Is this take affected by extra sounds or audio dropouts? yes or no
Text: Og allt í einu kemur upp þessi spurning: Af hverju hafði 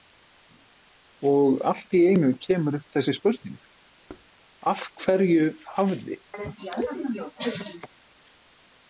yes